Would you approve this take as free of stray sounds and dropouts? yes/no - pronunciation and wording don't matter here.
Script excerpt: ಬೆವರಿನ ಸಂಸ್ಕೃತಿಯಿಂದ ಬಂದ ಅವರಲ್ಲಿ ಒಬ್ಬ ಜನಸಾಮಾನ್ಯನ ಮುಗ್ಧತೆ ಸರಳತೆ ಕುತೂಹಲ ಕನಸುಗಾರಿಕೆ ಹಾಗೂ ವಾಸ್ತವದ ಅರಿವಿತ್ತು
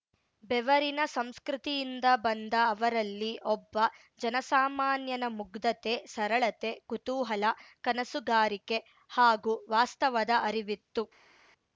yes